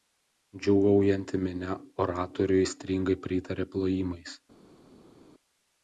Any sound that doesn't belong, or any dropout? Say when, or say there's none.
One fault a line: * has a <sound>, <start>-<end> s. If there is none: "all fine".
all fine